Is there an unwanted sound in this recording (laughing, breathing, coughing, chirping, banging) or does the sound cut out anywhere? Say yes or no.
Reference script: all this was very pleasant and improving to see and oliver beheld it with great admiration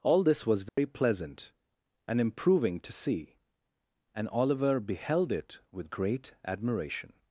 yes